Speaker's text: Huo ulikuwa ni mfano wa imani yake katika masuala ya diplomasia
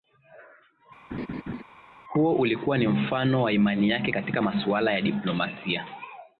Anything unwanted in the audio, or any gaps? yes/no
yes